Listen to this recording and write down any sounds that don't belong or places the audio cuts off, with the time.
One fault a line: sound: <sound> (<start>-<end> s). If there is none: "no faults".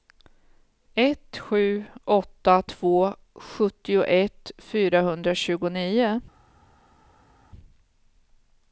no faults